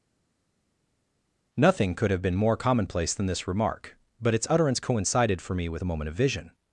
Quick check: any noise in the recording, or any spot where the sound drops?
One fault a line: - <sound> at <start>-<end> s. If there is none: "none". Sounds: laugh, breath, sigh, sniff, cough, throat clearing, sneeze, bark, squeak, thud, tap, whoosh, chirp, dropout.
none